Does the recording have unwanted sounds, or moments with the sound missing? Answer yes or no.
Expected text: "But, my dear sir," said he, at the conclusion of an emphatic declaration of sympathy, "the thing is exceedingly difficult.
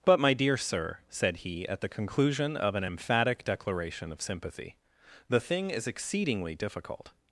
no